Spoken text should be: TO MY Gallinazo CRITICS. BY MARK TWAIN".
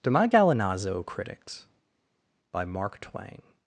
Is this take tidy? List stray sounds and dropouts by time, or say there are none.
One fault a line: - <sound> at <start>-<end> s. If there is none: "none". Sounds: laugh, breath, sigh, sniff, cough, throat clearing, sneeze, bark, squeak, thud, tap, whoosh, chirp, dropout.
none